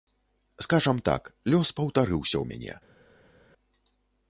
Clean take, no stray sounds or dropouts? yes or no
yes